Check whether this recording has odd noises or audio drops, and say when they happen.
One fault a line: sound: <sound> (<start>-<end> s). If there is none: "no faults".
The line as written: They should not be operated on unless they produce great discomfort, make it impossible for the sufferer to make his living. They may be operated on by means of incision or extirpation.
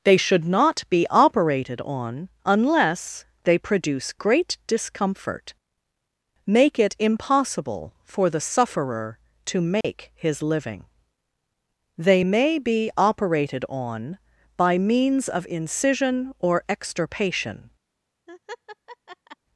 sound: dropout (9.8-9.8 s)
sound: laugh (18.3-19.4 s)